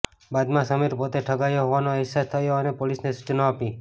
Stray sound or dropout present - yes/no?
no